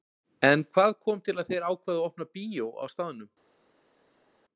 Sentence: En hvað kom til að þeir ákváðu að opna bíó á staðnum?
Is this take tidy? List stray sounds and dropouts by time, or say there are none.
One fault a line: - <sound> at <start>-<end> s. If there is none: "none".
none